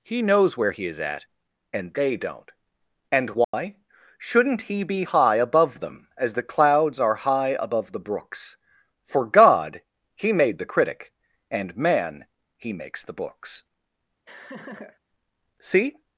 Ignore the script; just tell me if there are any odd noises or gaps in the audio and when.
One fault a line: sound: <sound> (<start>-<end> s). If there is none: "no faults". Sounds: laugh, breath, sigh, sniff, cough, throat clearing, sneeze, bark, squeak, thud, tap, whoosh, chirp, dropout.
sound: dropout (3.4-3.5 s)
sound: laugh (14.3-15.0 s)